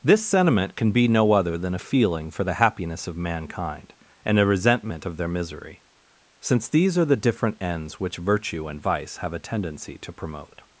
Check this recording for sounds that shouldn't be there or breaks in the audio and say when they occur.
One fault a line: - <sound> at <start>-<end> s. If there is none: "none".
none